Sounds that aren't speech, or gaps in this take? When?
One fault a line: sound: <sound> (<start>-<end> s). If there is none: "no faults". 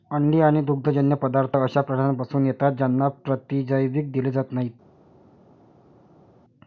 no faults